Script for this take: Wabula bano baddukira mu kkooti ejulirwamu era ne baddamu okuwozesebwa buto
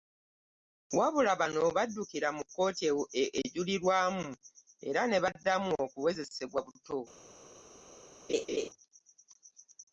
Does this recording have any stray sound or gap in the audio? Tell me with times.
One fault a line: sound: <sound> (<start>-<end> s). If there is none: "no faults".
sound: laugh (8.3-8.7 s)